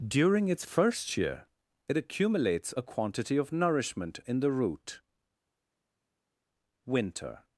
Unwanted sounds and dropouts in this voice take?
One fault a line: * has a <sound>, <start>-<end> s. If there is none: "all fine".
all fine